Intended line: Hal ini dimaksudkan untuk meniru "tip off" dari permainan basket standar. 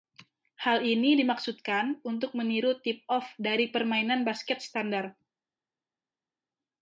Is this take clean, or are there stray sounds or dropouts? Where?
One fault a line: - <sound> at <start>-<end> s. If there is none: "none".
none